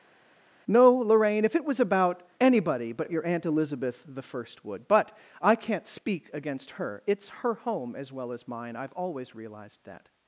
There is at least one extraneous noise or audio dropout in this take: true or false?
false